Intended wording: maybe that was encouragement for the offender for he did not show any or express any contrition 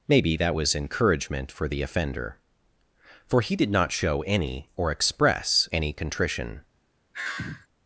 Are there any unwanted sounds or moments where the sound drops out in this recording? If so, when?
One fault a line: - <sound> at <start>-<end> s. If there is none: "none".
- sigh at 7.1-7.7 s